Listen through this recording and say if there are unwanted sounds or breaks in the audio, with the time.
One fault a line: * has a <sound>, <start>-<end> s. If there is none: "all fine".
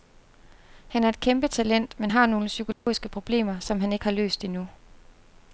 * has a dropout, 2.7-2.9 s